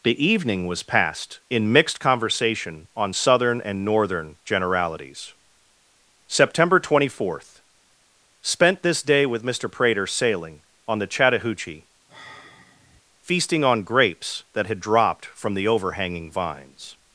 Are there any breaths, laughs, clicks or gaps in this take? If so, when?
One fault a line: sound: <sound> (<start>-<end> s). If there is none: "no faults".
sound: sigh (12.1-13.0 s)